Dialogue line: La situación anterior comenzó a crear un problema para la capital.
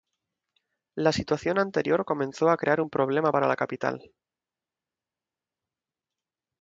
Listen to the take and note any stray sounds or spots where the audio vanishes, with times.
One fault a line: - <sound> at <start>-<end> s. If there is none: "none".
none